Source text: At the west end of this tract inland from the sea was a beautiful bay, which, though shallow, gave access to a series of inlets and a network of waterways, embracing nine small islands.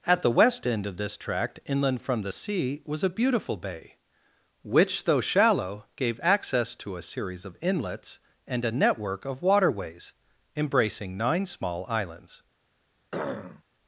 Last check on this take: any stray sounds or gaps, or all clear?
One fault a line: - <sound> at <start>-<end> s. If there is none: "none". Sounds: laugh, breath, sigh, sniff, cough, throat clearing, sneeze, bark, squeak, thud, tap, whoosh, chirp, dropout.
- throat clearing at 13.1-13.6 s